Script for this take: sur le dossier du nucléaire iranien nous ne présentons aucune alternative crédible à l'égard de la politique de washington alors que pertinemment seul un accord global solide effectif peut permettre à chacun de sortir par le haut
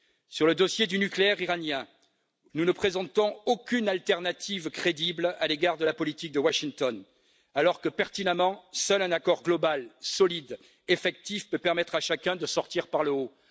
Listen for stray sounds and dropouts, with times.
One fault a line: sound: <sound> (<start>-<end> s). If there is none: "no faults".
no faults